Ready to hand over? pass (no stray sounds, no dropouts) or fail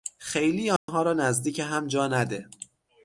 fail